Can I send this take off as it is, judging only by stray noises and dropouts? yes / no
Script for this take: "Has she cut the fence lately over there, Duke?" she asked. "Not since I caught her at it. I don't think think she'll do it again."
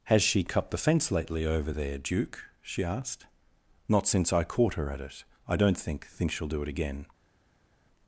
yes